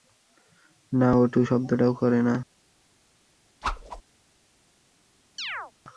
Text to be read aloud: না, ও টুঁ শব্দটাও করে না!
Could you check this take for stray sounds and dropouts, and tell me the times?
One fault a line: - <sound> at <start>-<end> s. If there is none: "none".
- whoosh at 3.6-4.0 s
- chirp at 5.4-5.7 s